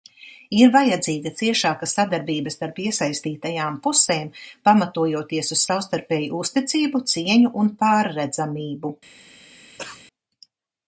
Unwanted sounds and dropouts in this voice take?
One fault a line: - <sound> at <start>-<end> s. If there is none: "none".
- cough at 9.8-10.0 s